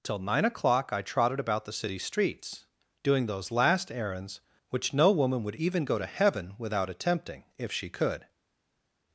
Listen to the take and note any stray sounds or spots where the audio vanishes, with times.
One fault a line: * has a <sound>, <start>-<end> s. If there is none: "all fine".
all fine